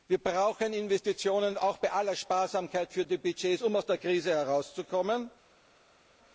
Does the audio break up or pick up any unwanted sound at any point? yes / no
no